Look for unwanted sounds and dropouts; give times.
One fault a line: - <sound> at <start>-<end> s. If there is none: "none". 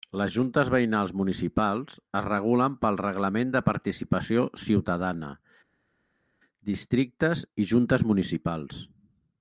none